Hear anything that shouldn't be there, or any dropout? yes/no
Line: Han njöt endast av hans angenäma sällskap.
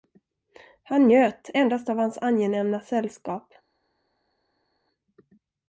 no